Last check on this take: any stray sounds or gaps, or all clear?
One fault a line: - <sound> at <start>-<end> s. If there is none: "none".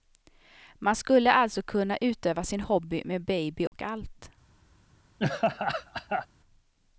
- dropout at 3.7-3.7 s
- laugh at 5.2-6.3 s